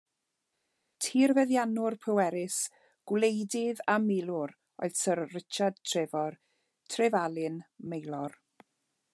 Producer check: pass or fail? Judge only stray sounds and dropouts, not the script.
pass